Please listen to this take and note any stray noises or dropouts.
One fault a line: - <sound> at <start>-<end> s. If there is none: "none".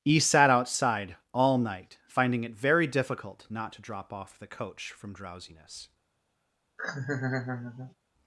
- laugh at 6.8-7.9 s